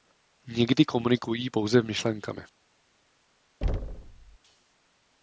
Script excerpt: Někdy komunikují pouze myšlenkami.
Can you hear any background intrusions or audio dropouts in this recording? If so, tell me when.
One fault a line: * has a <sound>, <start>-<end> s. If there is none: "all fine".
* has a thud, 3.6-4.4 s